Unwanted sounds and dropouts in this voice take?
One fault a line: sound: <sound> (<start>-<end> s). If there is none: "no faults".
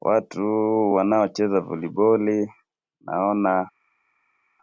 no faults